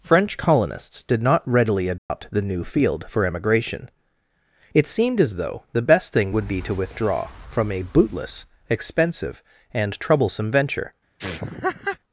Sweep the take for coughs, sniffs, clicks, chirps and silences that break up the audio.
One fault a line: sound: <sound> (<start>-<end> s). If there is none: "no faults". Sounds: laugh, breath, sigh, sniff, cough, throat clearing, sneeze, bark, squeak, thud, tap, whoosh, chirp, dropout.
sound: dropout (2.0-2.1 s)
sound: laugh (11.2-12.0 s)